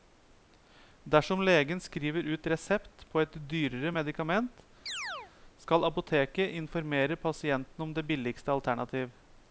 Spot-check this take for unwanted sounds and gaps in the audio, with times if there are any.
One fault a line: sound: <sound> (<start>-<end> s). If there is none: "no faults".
sound: chirp (4.9-5.3 s)